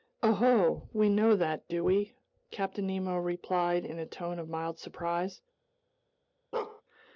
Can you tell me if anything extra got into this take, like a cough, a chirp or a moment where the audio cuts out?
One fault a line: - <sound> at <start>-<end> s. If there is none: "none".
- bark at 6.5-6.8 s